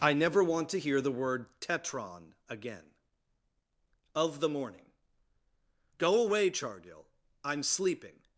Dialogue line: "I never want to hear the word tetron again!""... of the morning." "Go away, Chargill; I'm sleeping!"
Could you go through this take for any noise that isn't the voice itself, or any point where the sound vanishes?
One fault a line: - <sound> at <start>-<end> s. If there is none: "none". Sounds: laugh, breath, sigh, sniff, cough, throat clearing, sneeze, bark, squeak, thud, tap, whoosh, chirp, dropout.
none